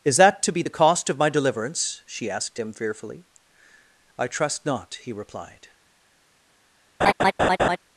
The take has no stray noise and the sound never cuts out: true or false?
false